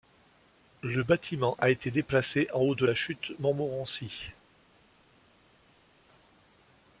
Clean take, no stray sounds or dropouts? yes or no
yes